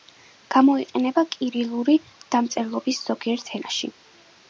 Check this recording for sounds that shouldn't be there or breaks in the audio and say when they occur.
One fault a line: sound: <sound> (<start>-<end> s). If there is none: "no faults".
no faults